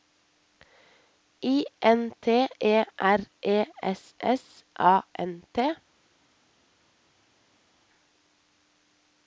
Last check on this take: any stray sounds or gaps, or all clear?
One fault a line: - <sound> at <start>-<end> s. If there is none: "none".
none